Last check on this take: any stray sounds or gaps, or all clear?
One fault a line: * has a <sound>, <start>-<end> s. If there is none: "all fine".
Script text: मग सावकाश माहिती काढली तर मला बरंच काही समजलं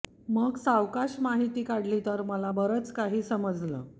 all fine